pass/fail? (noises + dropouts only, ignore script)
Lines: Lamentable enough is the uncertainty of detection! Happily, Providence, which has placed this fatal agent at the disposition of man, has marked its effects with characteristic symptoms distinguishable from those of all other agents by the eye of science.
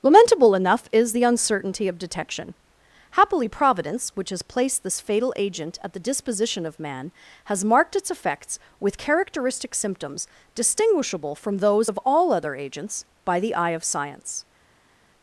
pass